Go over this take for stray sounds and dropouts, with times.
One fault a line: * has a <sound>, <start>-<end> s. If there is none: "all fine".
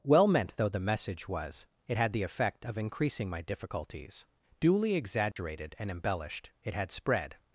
* has a dropout, 5.3-5.4 s